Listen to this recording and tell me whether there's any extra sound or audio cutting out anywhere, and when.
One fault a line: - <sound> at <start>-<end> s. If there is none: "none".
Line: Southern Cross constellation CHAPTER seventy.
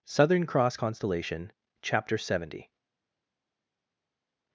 none